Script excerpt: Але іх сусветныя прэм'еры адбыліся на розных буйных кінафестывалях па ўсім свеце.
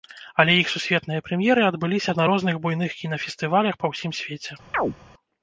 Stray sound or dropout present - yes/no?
yes